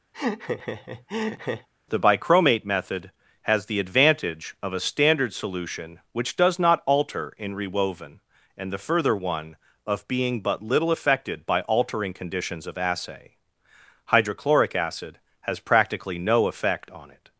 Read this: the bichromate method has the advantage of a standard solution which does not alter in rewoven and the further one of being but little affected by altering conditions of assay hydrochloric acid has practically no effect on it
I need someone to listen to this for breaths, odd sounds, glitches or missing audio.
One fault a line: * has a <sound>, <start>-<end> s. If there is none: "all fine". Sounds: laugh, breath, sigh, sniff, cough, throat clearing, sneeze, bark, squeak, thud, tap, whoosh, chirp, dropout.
* has a laugh, 0.1-1.7 s